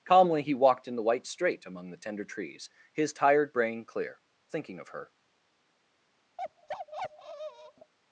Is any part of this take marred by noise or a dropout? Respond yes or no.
yes